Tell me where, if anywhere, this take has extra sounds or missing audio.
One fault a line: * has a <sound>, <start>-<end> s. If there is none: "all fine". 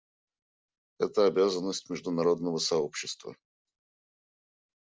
all fine